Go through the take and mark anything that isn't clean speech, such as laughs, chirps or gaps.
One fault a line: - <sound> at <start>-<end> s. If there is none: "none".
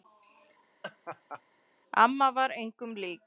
- laugh at 0.8-1.4 s